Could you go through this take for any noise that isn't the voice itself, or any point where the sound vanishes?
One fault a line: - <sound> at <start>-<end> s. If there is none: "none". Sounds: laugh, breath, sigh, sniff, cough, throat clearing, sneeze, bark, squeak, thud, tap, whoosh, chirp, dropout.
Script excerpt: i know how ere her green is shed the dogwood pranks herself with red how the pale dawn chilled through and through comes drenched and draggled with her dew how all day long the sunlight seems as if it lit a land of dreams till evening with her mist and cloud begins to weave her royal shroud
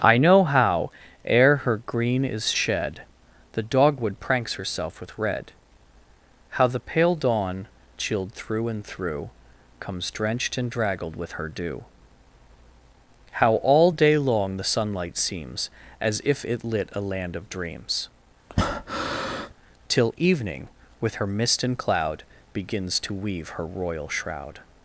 - breath at 18.5-19.5 s